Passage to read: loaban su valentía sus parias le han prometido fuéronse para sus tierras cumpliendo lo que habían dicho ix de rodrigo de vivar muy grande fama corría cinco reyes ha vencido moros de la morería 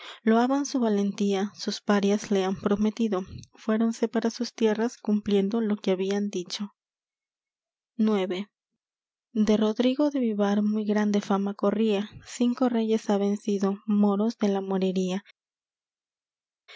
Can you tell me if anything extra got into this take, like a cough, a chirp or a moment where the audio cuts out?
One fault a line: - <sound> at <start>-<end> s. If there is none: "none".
none